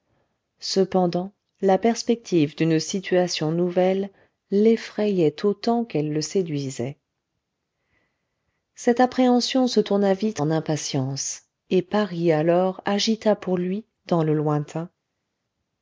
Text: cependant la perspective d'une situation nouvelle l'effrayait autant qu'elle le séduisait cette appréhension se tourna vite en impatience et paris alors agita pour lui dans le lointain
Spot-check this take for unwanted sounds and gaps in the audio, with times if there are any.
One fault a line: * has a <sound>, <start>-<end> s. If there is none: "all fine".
all fine